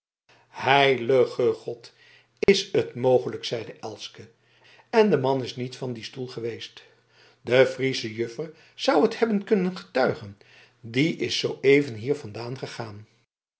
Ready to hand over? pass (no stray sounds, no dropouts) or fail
fail